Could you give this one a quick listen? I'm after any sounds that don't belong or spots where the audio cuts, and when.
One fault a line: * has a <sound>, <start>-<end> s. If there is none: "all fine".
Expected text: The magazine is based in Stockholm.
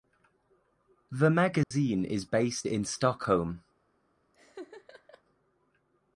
* has a dropout, 1.6-1.7 s
* has a laugh, 4.3-5.2 s